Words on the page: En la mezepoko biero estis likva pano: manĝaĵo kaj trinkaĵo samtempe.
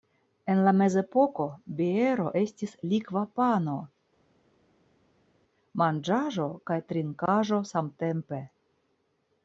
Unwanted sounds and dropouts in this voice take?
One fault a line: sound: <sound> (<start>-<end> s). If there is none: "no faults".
no faults